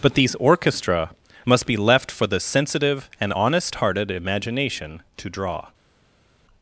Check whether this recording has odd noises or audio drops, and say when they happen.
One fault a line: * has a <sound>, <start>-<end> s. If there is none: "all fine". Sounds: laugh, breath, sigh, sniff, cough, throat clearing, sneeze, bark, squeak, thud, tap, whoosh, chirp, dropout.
all fine